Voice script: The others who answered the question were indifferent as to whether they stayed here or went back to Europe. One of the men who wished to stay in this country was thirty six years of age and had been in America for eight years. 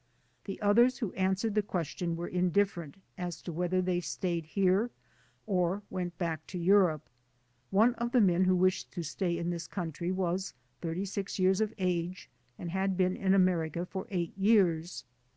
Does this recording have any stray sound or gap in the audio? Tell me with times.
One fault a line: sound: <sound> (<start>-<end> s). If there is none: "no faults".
no faults